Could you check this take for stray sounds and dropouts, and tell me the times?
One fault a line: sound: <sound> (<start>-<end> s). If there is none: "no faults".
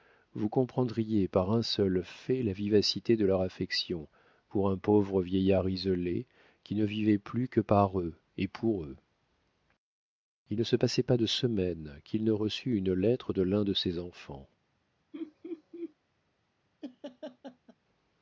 sound: laugh (15.1-15.9 s)
sound: laugh (16.8-17.8 s)